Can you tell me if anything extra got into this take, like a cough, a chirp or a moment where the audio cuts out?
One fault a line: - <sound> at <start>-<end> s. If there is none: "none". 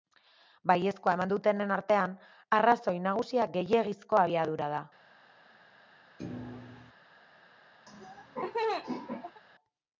- thud at 6.2-6.9 s
- laugh at 7.9-9.4 s